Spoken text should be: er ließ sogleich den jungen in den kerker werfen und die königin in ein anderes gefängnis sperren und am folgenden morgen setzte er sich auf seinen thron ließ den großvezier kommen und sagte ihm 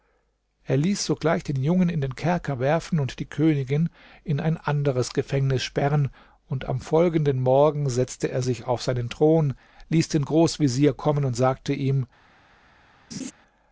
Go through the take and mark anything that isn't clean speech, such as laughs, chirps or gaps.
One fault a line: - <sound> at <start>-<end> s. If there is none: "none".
- laugh at 13.1-13.3 s